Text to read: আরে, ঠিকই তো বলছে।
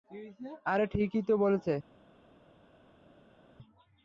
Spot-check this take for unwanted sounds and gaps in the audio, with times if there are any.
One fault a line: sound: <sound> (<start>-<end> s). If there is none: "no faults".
no faults